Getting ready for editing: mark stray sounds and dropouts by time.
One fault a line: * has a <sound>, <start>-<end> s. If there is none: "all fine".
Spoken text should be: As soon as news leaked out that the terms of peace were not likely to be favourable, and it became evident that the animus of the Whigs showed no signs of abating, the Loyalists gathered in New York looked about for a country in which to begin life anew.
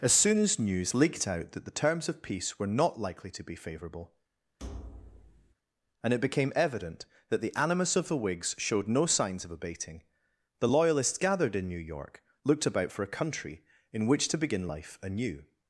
* has a thud, 4.6-5.5 s